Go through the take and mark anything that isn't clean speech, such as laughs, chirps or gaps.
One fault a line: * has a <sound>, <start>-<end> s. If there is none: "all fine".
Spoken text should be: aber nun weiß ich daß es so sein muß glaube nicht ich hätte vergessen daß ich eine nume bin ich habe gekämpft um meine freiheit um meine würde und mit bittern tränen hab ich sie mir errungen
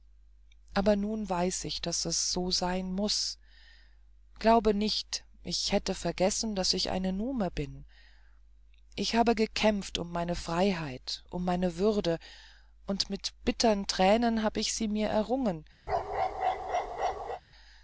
* has a bark, 15.9-17.4 s